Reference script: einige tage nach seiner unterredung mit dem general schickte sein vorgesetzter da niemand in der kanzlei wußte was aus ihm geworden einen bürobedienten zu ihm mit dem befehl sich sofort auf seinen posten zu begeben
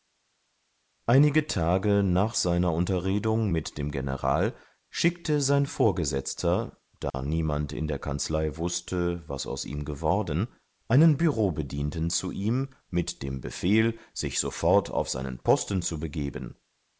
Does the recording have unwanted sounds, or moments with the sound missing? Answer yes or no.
yes